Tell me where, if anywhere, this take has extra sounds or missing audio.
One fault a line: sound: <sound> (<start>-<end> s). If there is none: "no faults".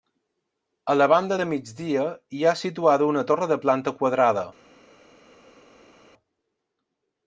no faults